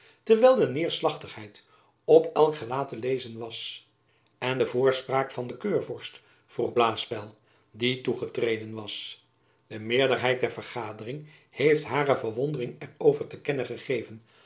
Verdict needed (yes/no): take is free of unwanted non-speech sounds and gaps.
yes